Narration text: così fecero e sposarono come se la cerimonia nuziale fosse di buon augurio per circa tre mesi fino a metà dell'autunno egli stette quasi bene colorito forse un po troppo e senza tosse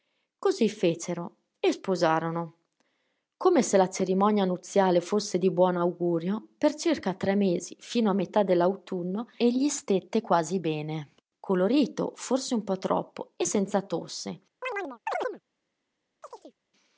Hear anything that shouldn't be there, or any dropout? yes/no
yes